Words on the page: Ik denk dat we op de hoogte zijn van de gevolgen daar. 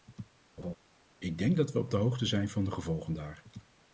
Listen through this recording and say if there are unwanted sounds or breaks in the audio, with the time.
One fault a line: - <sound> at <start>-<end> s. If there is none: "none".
- laugh at 0.6-0.8 s